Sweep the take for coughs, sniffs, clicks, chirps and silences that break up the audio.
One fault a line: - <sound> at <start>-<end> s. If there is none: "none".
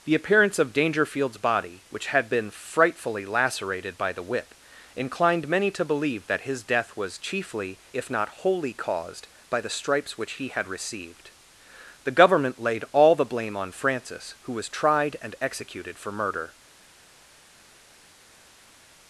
none